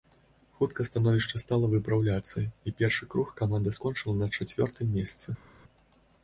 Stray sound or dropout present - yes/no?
no